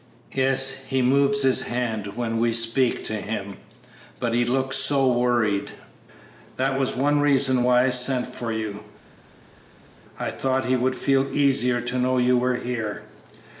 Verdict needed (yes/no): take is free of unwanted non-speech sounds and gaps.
yes